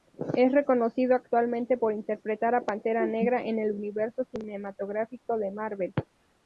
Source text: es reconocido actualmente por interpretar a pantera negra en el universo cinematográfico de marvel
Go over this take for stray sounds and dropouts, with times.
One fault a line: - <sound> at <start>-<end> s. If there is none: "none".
none